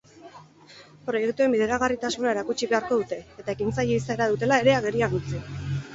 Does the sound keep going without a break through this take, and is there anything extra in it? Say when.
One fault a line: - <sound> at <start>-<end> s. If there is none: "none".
none